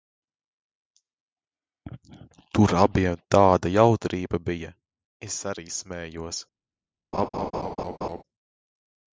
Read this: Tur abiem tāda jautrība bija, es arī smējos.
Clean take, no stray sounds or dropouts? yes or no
no